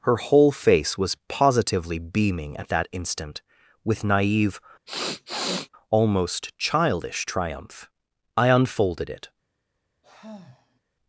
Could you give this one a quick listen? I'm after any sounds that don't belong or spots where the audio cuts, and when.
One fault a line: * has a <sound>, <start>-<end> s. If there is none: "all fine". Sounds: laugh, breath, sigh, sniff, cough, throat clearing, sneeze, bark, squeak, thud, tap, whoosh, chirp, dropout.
* has a sniff, 4.9-5.7 s
* has a sigh, 10.0-10.8 s